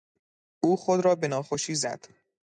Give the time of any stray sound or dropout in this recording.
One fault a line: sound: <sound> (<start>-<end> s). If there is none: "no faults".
no faults